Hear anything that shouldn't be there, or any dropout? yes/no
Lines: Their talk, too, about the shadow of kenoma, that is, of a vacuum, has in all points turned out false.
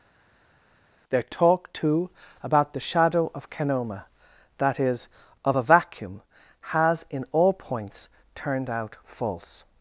no